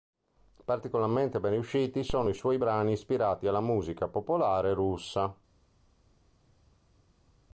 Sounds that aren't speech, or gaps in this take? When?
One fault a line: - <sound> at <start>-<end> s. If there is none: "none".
none